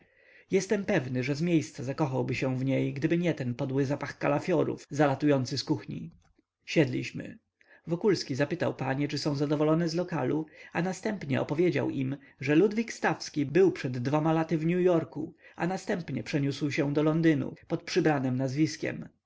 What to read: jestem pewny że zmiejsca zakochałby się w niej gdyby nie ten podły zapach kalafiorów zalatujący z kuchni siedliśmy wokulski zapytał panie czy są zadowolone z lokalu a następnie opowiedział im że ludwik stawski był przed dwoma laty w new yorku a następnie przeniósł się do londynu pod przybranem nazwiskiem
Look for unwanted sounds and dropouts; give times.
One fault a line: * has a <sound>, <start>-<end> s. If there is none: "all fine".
all fine